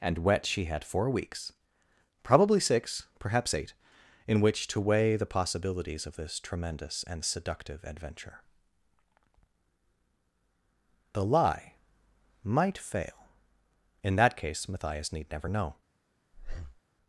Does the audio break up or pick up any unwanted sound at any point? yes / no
yes